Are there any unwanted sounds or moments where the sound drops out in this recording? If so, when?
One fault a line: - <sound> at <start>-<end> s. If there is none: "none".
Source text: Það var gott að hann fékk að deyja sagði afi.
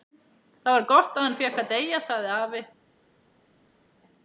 none